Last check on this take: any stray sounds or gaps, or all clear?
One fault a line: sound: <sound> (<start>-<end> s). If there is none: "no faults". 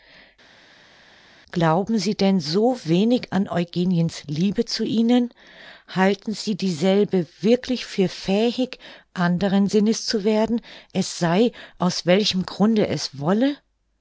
no faults